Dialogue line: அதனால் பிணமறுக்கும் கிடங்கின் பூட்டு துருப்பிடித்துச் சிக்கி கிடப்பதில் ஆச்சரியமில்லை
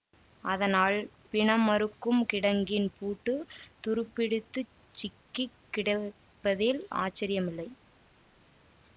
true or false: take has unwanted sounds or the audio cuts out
false